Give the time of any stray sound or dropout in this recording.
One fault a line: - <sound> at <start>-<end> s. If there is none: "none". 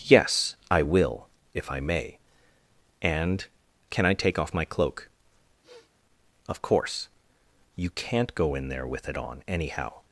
- sniff at 5.6-5.9 s